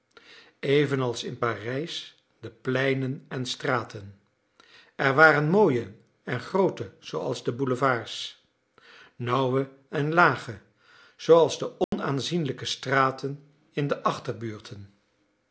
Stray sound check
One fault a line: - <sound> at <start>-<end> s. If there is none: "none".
- dropout at 11.8-11.9 s